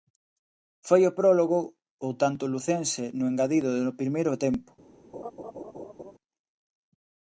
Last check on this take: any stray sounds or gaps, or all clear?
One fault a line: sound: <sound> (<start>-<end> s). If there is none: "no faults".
sound: laugh (5.1-6.1 s)